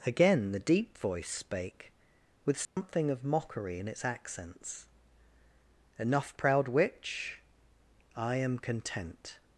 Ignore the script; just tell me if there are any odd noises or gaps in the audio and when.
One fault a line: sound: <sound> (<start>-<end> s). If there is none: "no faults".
sound: dropout (2.6-2.8 s)